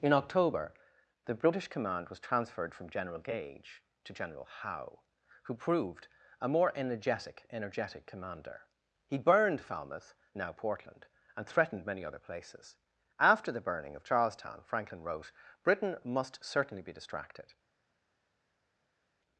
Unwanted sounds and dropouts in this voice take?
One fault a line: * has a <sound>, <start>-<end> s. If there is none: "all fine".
all fine